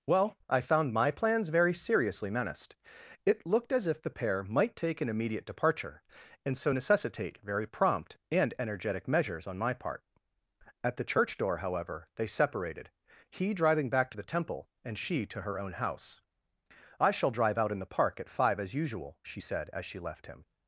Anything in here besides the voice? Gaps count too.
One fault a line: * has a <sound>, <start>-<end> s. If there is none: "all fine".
all fine